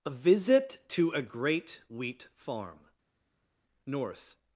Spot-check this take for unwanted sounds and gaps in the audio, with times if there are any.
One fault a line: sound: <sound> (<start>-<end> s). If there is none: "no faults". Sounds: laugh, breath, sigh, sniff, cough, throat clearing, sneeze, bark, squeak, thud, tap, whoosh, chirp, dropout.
no faults